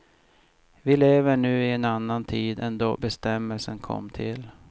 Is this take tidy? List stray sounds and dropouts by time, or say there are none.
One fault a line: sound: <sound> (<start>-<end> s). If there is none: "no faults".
no faults